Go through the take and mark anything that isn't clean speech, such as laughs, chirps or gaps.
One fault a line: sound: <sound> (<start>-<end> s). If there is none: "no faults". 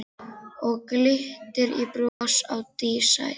sound: dropout (2.1-2.2 s)